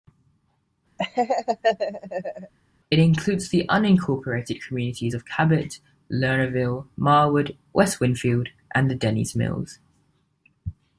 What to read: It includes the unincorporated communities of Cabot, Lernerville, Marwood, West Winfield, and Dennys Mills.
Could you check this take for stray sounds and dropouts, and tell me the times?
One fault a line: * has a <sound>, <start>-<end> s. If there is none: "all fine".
* has a laugh, 1.0-2.5 s